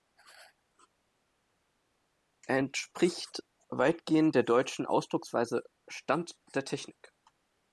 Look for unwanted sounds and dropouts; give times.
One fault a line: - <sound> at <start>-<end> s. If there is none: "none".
none